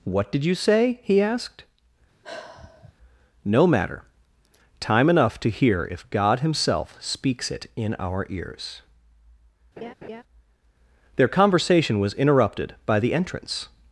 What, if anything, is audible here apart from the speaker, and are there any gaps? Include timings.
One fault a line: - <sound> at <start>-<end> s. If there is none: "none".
- sigh at 2.2-2.9 s
- laugh at 9.8-10.2 s